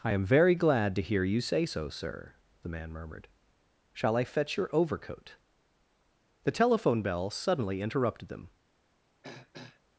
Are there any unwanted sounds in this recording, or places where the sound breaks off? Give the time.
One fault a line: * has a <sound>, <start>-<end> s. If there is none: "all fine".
* has a throat clearing, 9.2-9.8 s